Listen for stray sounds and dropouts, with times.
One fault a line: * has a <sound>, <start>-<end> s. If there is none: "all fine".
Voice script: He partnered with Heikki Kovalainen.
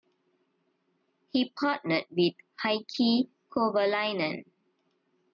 all fine